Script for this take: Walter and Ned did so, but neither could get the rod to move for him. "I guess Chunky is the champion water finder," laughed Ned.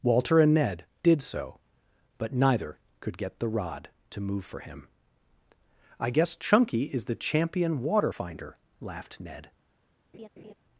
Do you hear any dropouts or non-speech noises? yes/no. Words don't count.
yes